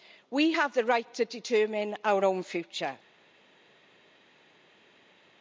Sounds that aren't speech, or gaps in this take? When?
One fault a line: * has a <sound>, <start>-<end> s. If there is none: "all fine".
all fine